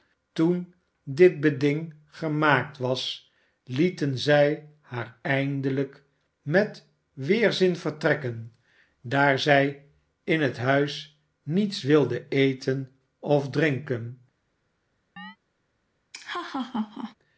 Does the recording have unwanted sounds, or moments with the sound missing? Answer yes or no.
yes